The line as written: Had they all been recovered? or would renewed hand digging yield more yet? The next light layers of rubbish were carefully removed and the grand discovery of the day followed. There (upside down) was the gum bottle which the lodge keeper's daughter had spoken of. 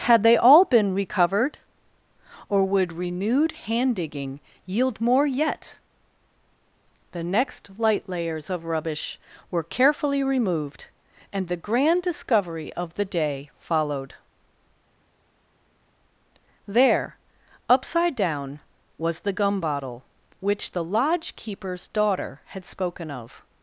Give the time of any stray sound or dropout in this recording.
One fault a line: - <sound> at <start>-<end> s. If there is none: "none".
none